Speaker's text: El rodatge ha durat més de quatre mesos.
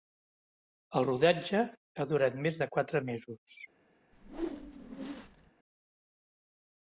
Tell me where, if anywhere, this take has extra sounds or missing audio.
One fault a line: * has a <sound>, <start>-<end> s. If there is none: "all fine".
* has a whoosh, 4.1-5.5 s